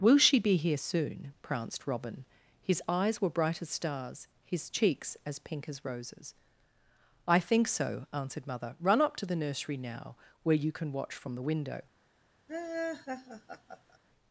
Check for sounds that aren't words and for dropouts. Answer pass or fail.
fail